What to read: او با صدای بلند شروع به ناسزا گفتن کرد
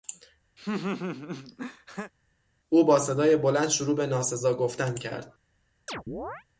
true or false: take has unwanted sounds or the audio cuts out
true